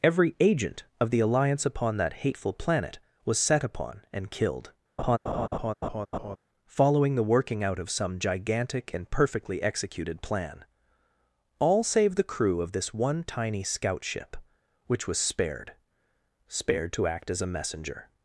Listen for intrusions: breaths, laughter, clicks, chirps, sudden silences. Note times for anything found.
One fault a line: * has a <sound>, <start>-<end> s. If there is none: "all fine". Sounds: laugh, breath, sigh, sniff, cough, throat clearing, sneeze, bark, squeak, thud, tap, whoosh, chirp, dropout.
* has a laugh, 5.0-6.4 s